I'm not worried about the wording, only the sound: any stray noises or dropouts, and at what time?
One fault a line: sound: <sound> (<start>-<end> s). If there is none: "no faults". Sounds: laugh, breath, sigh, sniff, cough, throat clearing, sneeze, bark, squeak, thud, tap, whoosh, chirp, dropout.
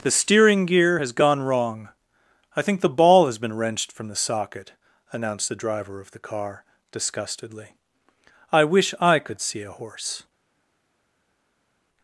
no faults